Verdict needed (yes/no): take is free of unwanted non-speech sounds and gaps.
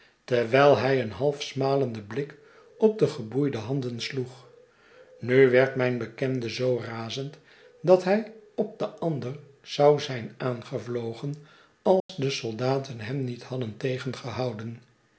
no